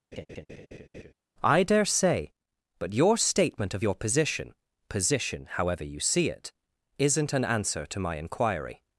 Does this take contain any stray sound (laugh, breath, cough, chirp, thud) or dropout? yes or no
yes